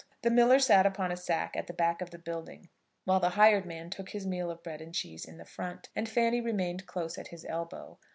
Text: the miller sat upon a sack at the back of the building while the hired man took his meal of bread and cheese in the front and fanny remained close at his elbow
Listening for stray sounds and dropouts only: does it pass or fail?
pass